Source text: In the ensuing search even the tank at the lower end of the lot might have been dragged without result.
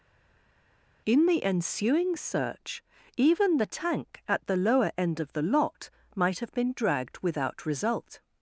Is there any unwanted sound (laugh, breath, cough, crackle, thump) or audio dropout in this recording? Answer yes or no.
no